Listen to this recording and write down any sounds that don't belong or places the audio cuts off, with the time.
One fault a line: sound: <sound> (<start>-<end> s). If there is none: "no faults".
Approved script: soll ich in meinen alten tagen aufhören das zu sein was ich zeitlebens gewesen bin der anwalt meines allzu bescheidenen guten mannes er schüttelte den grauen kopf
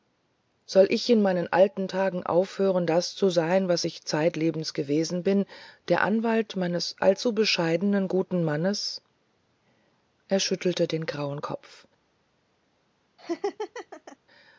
sound: laugh (13.2-14.2 s)